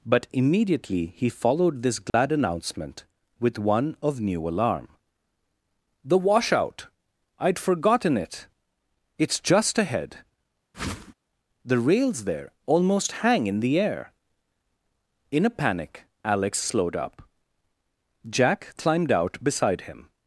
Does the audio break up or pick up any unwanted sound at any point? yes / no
yes